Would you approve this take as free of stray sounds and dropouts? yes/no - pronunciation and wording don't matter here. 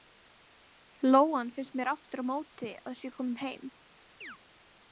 no